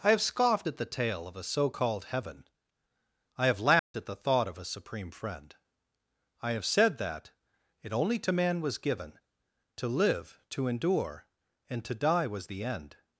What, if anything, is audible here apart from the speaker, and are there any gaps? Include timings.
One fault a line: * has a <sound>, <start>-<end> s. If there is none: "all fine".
* has a dropout, 3.8-3.9 s